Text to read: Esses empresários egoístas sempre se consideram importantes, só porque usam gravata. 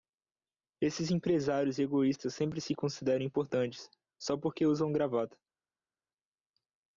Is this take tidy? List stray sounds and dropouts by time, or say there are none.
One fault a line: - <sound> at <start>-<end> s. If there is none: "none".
none